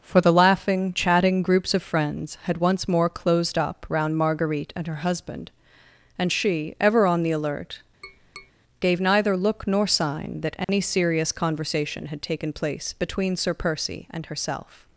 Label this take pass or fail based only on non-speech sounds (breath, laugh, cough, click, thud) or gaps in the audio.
fail